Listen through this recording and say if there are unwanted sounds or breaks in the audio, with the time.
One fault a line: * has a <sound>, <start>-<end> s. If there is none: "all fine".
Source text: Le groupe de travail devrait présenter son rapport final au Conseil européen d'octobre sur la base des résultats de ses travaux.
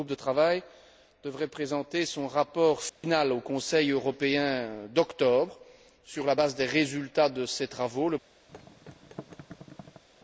* has a dropout, 2.9-3.0 s
* has a thud, 8.5-10.0 s